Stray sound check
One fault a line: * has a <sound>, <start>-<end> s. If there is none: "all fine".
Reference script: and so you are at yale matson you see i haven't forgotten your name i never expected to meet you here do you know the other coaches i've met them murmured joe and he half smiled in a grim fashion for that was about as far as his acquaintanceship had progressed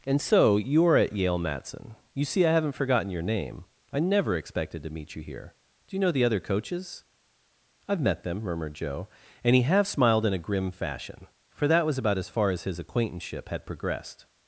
all fine